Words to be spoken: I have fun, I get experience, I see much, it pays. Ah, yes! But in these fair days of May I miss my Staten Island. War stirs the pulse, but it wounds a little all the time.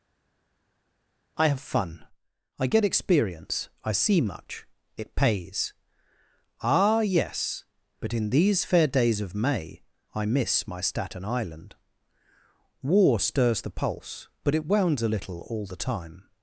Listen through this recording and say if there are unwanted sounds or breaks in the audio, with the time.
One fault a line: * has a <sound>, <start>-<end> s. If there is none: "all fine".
all fine